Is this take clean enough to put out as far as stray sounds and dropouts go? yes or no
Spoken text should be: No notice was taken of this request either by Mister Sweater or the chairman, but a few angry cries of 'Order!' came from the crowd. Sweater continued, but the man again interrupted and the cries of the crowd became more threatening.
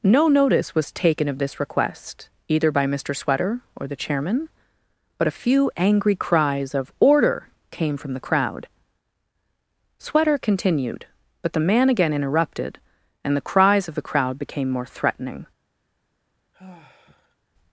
no